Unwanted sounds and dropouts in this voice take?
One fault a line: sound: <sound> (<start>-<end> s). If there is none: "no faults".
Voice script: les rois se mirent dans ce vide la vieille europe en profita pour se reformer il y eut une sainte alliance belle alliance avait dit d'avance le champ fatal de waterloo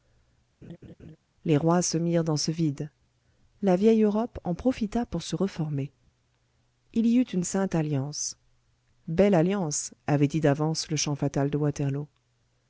sound: laugh (0.6-1.2 s)